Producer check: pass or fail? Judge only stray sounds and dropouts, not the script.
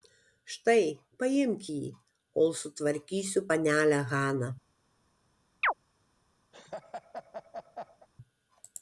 fail